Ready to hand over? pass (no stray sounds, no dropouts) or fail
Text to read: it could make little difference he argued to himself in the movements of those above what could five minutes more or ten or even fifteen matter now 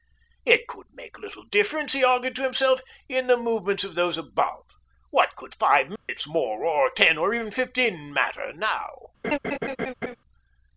fail